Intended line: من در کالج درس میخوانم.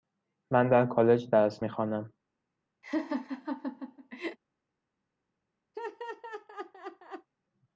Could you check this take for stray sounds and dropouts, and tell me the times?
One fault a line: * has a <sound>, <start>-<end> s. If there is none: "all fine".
* has a laugh, 2.8-4.4 s
* has a laugh, 5.7-7.3 s